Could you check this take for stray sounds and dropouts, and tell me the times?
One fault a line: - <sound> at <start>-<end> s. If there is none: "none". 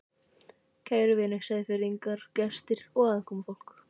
none